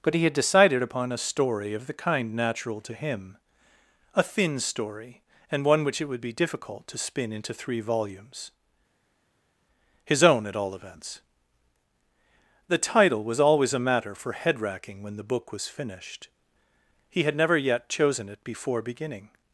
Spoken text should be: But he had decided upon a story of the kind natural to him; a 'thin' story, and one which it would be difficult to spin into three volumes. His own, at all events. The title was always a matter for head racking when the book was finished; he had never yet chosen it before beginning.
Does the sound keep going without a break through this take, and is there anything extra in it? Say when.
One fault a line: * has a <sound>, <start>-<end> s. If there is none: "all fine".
all fine